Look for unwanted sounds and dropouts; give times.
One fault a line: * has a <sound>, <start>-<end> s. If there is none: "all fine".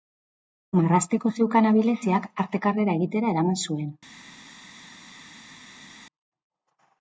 all fine